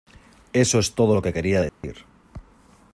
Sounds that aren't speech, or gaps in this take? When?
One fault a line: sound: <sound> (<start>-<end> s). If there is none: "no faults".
sound: dropout (1.7-1.8 s)